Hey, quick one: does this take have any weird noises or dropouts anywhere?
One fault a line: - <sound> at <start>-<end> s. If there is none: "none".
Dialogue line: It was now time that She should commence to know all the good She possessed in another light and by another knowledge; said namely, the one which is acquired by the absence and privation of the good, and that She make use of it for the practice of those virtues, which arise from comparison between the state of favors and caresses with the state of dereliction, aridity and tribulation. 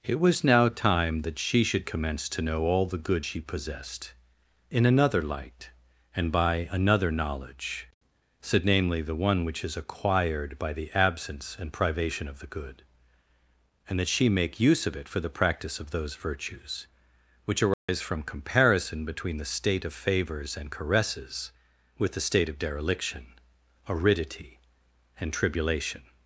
- dropout at 17.7-17.9 s